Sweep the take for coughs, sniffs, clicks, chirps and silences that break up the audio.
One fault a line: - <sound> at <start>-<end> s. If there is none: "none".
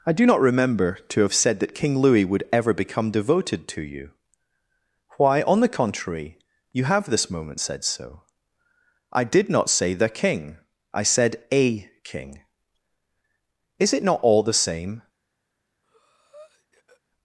- breath at 15.8-17.0 s